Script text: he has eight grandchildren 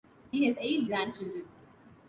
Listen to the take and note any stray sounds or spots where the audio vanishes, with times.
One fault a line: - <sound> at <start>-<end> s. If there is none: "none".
none